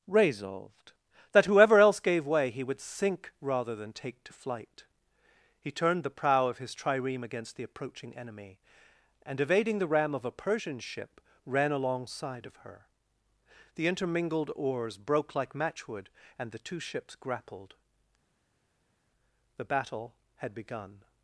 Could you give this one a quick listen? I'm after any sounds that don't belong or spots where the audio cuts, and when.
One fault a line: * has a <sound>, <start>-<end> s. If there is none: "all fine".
all fine